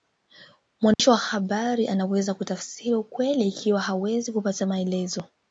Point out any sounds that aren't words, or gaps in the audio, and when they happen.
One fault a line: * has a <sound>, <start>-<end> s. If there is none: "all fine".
* has a dropout, 0.9-1.0 s